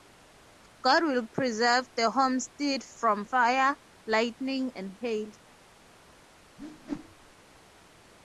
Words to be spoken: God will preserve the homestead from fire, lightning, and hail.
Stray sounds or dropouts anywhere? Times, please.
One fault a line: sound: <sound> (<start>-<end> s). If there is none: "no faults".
sound: whoosh (6.6-7.3 s)